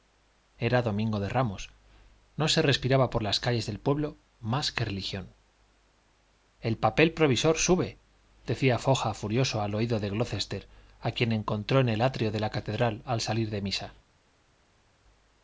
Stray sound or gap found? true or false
false